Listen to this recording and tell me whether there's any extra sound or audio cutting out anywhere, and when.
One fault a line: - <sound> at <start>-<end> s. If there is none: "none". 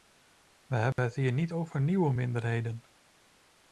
- dropout at 0.9-1.0 s